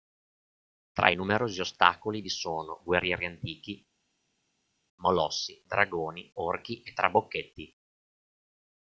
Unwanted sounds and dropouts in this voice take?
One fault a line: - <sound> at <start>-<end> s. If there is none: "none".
none